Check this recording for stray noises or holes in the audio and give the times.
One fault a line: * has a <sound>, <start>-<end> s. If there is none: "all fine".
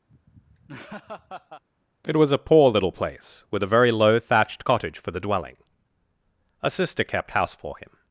* has a laugh, 0.1-1.6 s